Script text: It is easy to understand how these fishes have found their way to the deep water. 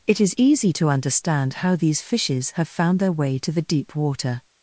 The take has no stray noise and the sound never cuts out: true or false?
true